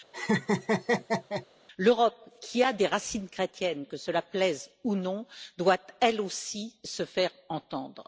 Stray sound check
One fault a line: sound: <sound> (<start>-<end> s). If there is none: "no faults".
sound: laugh (0.1-1.5 s)